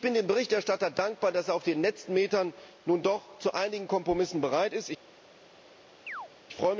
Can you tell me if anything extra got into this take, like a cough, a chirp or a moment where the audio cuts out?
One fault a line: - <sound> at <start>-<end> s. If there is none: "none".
- chirp at 6.1-6.3 s